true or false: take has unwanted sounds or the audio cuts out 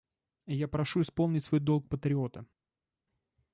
false